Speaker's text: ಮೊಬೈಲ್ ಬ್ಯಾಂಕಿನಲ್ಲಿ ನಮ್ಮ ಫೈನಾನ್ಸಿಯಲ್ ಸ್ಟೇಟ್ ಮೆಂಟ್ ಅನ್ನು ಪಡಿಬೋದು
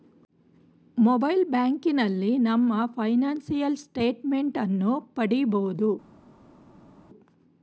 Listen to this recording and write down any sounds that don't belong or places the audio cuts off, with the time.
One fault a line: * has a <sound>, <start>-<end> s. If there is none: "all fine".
all fine